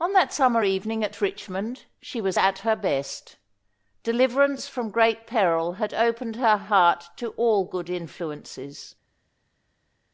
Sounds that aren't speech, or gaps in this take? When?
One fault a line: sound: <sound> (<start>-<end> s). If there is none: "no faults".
no faults